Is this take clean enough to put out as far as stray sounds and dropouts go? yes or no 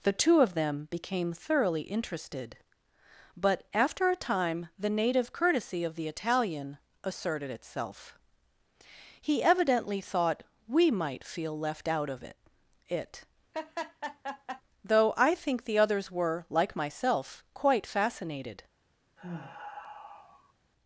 no